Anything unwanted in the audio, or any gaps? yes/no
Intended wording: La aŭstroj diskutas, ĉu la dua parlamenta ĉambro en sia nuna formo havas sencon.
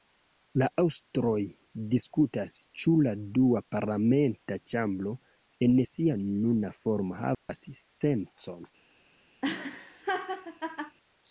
yes